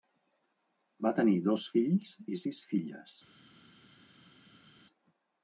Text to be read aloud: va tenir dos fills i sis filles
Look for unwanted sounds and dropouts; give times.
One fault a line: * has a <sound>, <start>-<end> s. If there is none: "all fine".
all fine